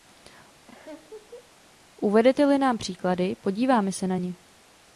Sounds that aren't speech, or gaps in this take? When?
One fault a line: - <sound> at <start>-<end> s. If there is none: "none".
- laugh at 0.7-1.5 s